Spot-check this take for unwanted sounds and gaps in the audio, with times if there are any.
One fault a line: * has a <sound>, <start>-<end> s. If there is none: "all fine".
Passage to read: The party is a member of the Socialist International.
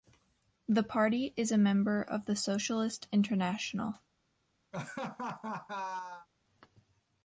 * has a laugh, 4.7-6.3 s